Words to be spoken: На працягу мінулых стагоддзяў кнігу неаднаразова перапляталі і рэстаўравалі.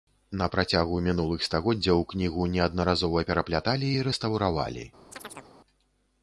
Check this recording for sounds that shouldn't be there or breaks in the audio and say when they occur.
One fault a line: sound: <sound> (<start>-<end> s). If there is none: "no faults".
sound: chirp (5.1-5.5 s)